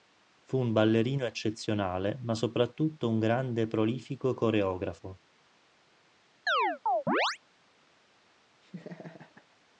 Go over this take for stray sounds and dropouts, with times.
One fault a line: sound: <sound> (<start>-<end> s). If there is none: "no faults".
sound: chirp (6.5-7.4 s)
sound: laugh (8.6-9.5 s)